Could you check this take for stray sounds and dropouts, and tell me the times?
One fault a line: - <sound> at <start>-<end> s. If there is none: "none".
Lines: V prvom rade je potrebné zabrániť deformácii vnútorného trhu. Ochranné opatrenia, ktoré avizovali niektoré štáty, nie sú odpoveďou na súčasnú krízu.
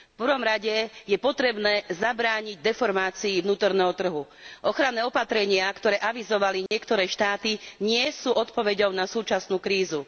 - dropout at 6.7-6.7 s